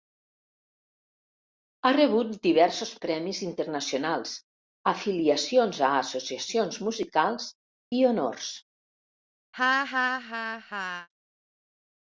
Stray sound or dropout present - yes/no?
yes